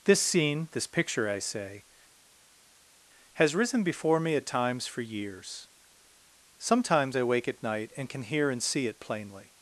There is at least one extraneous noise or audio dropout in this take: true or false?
false